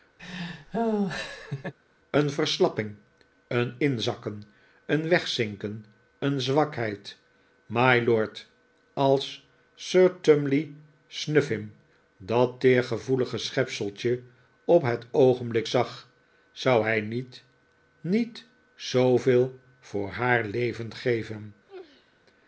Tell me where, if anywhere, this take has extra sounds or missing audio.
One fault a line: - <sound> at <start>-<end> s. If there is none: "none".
- laugh at 0.2-1.7 s
- sneeze at 21.6-22.3 s